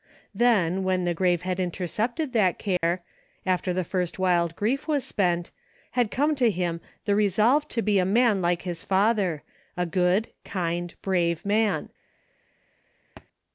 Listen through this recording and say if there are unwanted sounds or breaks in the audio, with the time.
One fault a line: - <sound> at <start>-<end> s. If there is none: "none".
- dropout at 2.8-2.8 s
- thud at 13.2-13.3 s